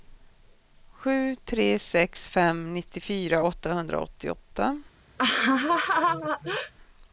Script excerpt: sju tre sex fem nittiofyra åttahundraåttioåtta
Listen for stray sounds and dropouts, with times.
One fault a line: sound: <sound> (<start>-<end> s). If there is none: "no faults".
sound: laugh (5.2-6.7 s)